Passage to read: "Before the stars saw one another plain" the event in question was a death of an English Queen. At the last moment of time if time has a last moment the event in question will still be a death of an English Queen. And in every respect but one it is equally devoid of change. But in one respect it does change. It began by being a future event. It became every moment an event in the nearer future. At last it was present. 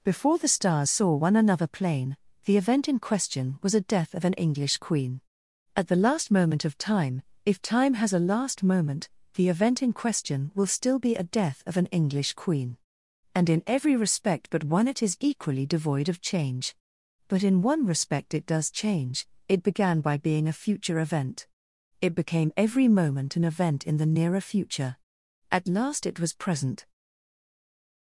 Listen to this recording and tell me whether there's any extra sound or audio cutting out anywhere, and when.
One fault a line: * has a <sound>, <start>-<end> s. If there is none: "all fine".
all fine